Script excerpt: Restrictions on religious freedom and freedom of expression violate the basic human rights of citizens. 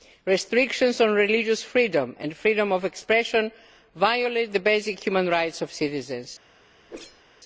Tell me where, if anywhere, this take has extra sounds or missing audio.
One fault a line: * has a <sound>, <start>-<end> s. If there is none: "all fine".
* has a whoosh, 6.9-7.2 s